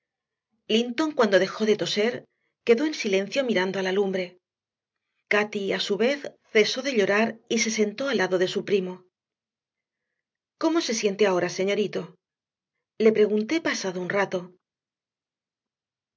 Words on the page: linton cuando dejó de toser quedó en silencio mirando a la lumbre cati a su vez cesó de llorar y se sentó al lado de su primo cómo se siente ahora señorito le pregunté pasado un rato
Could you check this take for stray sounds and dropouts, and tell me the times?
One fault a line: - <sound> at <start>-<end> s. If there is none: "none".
none